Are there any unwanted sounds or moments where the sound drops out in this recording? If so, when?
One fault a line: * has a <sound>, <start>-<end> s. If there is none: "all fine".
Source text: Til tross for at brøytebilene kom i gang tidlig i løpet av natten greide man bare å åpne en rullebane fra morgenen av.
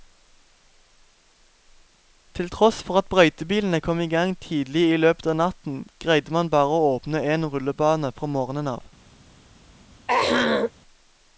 * has a throat clearing, 10.1-10.7 s